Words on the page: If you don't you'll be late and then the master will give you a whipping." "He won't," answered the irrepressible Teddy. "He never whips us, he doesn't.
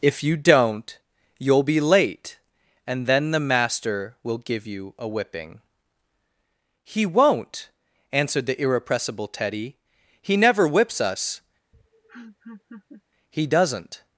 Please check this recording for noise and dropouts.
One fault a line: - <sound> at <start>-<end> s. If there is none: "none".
- laugh at 11.7-13.0 s